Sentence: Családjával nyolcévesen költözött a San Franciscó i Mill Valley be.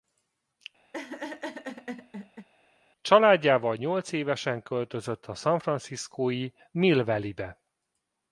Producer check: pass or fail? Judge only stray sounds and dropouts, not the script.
fail